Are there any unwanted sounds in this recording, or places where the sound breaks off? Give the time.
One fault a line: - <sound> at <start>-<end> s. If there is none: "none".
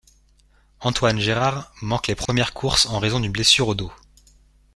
- dropout at 2.3-2.3 s